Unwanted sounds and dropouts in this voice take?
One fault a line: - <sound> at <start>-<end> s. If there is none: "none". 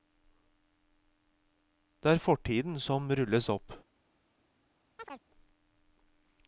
- chirp at 5.0-5.2 s